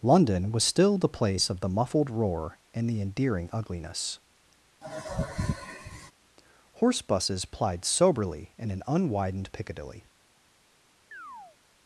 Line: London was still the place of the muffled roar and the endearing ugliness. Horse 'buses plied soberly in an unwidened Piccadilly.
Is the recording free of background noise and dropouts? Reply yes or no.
no